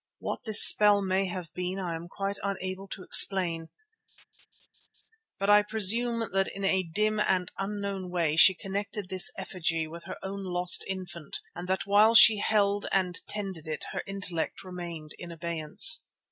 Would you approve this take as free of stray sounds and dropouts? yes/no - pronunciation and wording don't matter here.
no